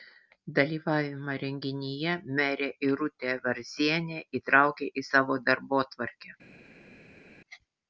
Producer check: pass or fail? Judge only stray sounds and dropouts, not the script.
pass